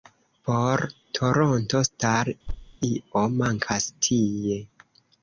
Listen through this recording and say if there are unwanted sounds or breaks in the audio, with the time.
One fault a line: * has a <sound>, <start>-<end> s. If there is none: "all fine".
* has a thud, 2.5-2.8 s